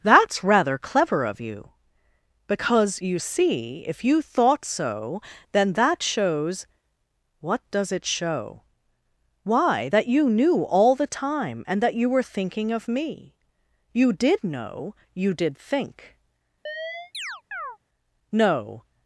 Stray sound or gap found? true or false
true